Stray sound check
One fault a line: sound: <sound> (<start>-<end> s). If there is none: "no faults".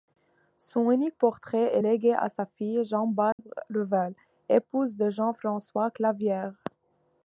sound: dropout (3.3-3.4 s)